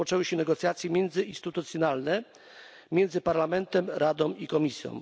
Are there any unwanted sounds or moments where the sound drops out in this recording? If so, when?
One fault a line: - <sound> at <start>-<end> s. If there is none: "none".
none